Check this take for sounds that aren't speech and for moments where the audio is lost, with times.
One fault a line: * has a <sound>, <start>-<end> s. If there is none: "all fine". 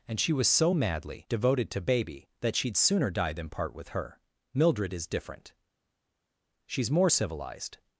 all fine